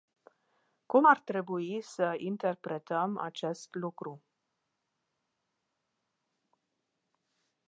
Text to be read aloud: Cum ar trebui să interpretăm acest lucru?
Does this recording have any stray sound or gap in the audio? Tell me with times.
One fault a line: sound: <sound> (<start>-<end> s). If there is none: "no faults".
no faults